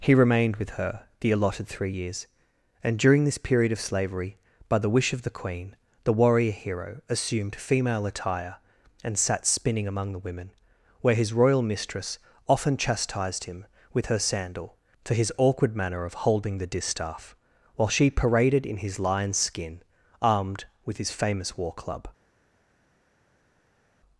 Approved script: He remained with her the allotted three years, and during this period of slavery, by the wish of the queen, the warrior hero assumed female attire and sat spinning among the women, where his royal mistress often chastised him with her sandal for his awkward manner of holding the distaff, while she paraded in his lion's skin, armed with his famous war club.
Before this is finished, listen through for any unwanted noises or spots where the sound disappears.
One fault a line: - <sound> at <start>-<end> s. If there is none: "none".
none